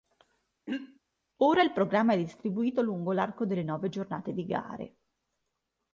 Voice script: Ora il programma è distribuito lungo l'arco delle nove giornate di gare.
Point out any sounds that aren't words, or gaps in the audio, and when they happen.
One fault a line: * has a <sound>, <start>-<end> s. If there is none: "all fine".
* has a throat clearing, 0.7-1.0 s